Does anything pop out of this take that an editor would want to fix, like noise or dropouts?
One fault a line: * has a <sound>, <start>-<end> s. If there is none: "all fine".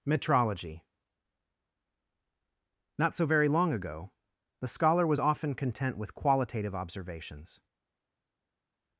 all fine